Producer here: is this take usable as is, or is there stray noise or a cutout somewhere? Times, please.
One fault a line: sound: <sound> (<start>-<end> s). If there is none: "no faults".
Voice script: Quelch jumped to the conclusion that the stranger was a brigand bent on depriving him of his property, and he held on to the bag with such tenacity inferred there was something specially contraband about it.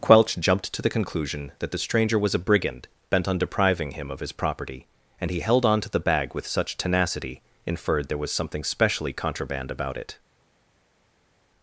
no faults